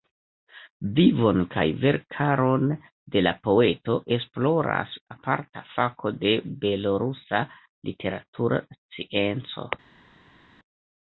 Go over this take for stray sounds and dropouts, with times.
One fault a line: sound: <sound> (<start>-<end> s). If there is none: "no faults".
no faults